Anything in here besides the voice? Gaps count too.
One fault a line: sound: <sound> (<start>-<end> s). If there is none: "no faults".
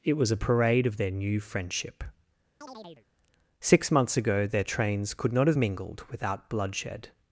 sound: chirp (2.6-3.1 s)